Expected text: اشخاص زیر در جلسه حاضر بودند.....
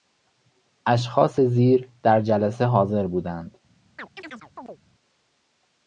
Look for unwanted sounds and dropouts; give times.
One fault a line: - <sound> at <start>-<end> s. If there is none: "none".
- chirp at 4.0-4.8 s